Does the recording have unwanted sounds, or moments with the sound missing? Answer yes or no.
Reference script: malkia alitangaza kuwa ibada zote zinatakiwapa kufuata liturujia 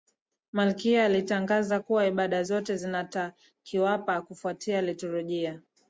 no